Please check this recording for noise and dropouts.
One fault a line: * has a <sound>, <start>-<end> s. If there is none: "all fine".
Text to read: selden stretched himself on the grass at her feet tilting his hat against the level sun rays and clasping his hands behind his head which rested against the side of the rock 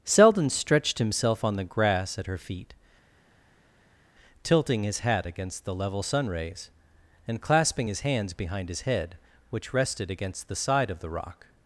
all fine